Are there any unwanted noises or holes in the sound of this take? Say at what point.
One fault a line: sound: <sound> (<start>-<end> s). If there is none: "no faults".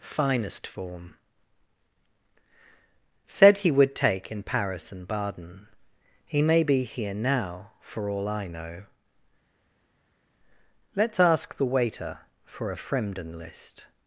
no faults